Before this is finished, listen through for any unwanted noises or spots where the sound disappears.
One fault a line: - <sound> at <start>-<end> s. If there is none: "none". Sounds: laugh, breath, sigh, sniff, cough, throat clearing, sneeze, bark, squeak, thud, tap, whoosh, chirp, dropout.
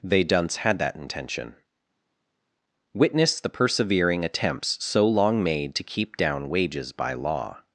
none